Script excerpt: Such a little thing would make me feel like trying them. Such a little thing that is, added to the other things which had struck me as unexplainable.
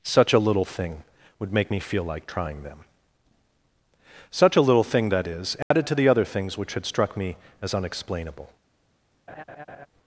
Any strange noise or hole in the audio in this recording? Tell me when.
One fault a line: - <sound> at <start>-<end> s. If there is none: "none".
- dropout at 5.6-5.7 s
- laugh at 9.3-9.9 s